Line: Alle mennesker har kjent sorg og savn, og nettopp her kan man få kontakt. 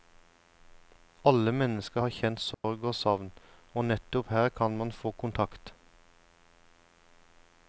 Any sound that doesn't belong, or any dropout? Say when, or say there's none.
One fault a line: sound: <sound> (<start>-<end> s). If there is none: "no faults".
sound: dropout (2.5-2.6 s)